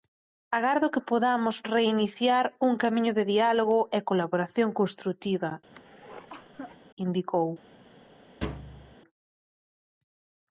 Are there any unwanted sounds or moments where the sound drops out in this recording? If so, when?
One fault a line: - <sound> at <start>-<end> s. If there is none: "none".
- cough at 5.7-6.8 s
- thud at 8.4-9.0 s